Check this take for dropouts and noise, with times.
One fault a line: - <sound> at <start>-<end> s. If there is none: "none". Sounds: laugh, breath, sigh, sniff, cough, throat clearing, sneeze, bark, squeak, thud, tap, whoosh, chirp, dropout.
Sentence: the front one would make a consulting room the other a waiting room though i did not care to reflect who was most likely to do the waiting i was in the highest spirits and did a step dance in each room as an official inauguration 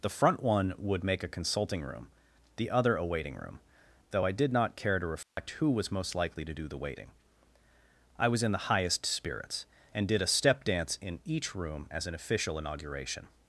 - dropout at 5.2-5.4 s